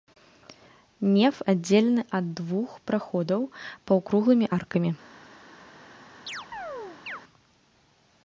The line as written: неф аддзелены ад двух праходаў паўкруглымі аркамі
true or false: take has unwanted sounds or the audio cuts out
true